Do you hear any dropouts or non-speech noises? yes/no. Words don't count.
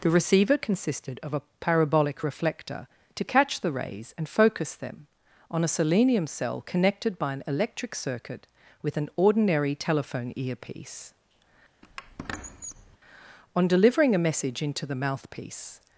yes